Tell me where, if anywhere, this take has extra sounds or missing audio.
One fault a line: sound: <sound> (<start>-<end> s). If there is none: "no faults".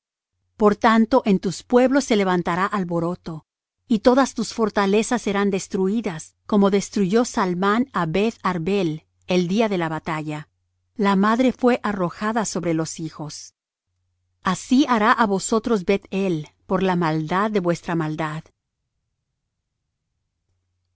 no faults